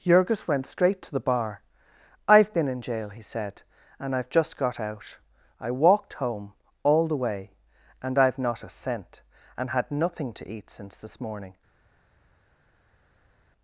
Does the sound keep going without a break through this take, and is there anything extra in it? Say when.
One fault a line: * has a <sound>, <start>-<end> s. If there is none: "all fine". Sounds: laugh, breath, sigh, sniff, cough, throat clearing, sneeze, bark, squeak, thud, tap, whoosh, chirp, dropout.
all fine